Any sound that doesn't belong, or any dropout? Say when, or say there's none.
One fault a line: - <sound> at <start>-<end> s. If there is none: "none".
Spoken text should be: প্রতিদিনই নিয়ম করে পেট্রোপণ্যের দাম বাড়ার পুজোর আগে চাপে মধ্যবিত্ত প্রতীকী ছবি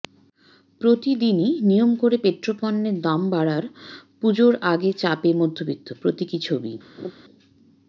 - laugh at 7.0-7.1 s